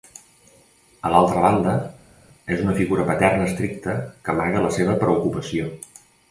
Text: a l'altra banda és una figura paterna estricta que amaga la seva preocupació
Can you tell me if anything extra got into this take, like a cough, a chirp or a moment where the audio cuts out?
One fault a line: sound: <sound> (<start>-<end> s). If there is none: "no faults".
no faults